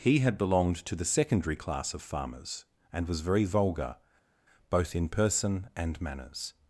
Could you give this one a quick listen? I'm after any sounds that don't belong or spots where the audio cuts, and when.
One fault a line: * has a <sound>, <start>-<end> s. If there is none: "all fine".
all fine